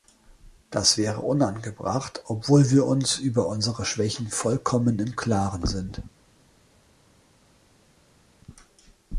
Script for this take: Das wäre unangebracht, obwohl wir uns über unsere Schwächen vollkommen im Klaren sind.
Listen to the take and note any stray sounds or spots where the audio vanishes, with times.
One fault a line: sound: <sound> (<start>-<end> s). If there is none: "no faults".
no faults